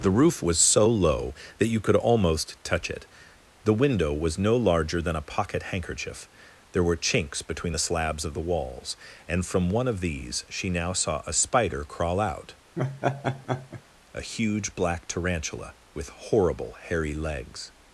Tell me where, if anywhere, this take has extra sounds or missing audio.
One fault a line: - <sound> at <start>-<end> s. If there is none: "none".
- laugh at 12.8-13.8 s